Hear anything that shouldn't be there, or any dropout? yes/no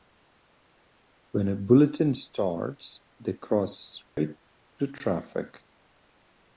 yes